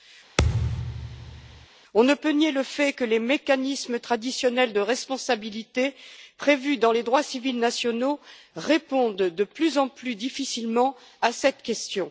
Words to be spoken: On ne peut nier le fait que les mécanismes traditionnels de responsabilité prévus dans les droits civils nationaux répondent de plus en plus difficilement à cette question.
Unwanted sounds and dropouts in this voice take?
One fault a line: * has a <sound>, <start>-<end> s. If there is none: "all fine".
* has a thud, 0.4-1.7 s